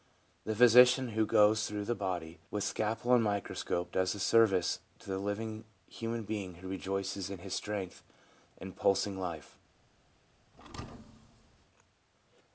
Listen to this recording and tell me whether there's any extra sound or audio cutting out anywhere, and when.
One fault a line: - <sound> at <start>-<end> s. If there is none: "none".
- thud at 10.5-11.7 s